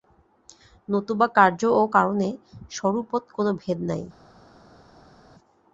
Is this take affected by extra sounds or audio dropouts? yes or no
no